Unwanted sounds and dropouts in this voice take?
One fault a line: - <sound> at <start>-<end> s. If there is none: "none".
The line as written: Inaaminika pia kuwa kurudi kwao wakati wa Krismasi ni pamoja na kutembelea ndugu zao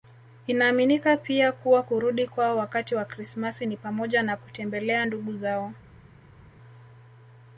none